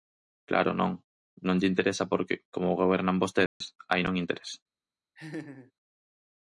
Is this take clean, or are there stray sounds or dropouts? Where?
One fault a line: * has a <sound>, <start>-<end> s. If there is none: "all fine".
* has a dropout, 3.5-3.6 s
* has a laugh, 5.2-5.7 s